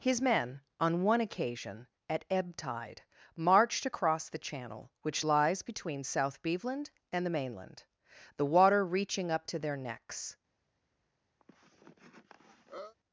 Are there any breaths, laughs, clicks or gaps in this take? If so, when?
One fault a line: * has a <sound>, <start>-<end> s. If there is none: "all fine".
* has a cough, 11.4-13.0 s